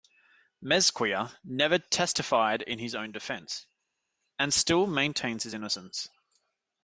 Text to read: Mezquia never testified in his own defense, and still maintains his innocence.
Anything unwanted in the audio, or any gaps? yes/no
no